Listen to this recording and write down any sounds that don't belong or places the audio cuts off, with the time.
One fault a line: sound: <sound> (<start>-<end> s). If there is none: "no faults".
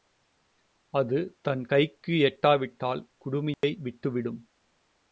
sound: dropout (3.5-3.6 s)